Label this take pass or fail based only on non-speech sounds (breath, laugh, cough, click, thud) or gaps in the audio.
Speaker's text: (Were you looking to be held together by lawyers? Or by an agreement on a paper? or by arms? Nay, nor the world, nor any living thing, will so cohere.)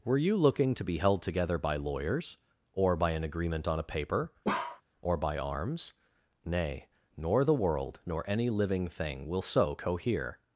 fail